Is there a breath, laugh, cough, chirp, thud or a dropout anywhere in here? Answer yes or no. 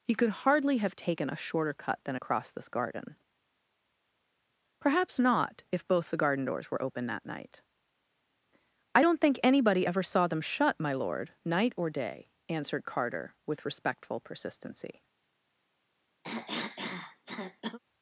yes